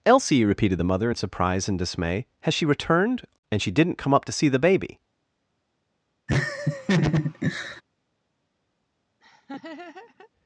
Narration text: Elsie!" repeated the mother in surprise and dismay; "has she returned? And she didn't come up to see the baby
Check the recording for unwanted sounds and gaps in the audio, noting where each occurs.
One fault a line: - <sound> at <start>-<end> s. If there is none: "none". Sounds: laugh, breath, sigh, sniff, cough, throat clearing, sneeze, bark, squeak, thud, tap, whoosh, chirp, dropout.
- laugh at 6.3-7.8 s
- laugh at 9.2-10.3 s